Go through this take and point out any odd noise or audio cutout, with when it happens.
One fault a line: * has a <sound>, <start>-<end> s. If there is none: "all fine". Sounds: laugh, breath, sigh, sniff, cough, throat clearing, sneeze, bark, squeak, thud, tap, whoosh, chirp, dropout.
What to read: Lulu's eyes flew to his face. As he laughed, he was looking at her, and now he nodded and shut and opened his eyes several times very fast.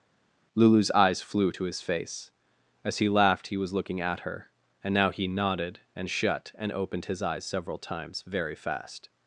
all fine